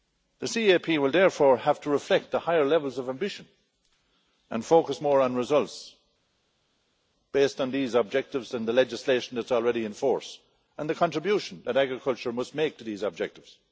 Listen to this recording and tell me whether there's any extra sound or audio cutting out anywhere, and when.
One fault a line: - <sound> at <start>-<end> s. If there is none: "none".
none